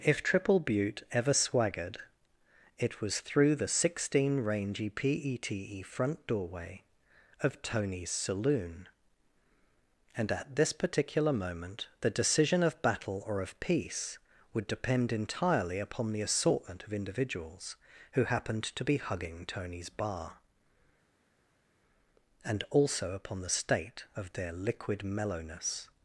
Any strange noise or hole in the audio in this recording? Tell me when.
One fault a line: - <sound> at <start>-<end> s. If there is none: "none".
none